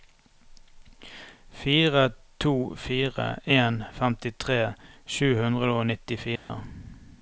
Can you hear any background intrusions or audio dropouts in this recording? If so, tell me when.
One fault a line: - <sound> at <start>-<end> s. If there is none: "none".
- dropout at 6.4-6.5 s